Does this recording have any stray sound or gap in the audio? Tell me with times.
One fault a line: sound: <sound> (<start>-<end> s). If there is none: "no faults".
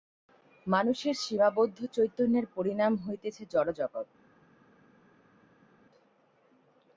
no faults